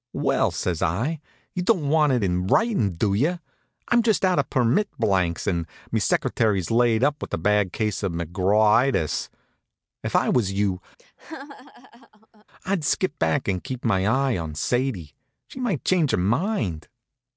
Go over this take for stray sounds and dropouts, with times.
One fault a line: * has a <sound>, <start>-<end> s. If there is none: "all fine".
* has a laugh, 11.0-12.5 s